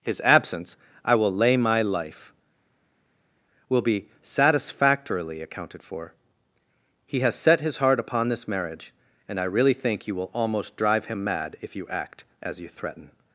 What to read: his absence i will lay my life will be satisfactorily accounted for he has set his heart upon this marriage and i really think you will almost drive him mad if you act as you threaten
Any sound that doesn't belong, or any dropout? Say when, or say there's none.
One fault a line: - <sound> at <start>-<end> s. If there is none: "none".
none